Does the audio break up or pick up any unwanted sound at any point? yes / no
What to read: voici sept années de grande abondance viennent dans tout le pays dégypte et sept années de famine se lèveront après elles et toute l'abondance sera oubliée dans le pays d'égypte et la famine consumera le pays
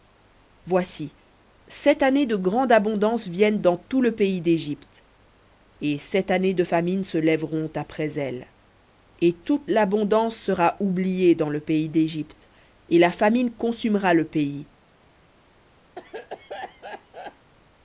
yes